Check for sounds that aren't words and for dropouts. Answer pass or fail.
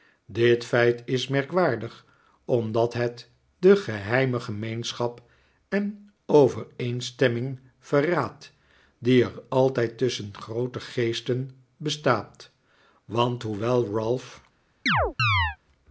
fail